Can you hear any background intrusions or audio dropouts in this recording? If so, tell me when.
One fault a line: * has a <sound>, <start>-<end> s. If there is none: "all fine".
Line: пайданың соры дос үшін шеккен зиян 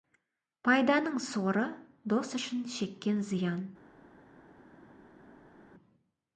all fine